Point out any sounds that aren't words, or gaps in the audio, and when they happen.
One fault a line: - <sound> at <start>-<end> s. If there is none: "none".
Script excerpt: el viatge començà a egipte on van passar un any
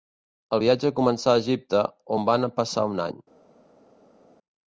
none